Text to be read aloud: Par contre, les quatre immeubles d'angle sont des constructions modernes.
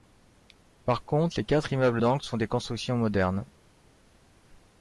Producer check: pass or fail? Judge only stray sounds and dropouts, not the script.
pass